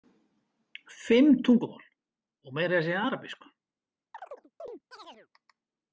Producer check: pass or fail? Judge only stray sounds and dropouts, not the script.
fail